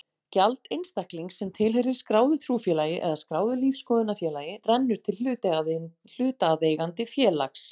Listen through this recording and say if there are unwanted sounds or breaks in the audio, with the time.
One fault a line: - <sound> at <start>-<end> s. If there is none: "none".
none